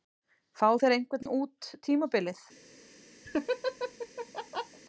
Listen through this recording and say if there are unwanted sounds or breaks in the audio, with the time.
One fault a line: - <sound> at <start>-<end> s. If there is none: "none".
- dropout at 1.2-1.3 s
- laugh at 3.2-4.8 s